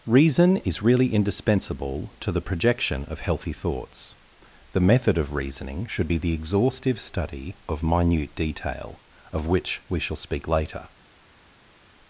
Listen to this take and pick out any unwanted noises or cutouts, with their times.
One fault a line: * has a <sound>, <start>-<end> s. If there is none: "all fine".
all fine